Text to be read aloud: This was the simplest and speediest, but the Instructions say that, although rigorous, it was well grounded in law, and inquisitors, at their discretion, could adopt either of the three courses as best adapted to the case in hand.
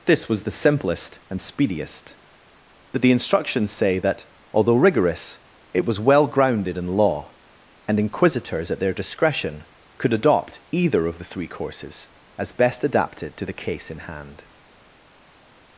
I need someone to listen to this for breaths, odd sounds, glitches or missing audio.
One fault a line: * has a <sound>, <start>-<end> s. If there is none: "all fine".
all fine